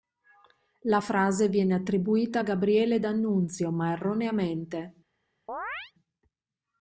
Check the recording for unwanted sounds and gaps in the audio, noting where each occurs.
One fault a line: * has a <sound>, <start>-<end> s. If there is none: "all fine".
* has a chirp, 5.5-5.9 s